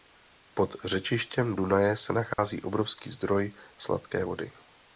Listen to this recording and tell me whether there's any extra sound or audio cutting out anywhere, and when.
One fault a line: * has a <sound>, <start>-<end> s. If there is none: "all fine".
* has a dropout, 2.3-2.4 s